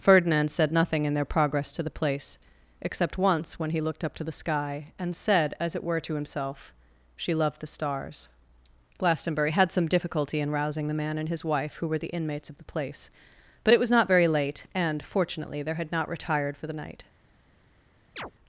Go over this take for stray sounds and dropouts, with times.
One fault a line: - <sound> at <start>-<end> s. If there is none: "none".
- chirp at 18.2-18.3 s